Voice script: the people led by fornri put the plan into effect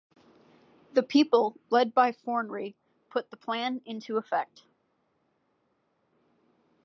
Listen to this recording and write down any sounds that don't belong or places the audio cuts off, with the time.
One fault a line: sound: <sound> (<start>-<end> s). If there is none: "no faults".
no faults